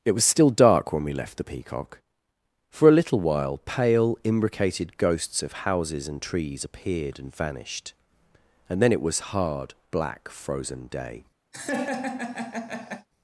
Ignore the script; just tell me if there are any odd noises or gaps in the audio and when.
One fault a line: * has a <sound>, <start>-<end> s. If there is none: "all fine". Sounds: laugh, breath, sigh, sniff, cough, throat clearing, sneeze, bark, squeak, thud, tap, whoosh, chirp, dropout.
* has a laugh, 11.5-13.1 s